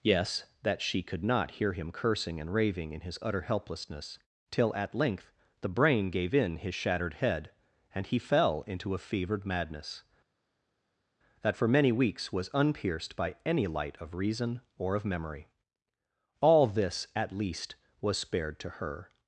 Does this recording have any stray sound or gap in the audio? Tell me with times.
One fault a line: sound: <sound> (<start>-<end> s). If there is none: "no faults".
no faults